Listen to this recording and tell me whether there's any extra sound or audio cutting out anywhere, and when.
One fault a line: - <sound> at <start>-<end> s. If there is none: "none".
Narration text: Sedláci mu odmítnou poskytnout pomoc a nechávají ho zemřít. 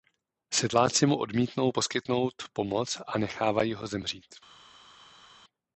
none